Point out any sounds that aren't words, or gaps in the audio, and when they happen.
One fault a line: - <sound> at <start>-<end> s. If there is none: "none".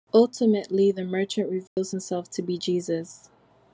- dropout at 1.7-1.8 s